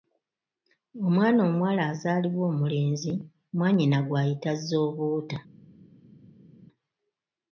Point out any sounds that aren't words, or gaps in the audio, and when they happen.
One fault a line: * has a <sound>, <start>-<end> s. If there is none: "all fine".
all fine